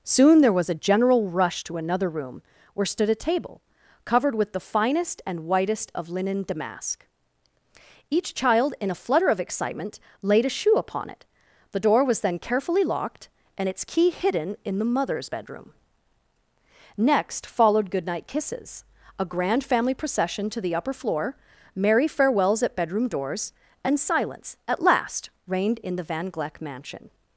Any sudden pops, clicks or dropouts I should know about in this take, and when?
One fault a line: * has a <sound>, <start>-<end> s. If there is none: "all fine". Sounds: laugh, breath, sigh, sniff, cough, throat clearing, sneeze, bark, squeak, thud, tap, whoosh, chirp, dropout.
all fine